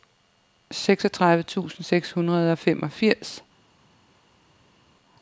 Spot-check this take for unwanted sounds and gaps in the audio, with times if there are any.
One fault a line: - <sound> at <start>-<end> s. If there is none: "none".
none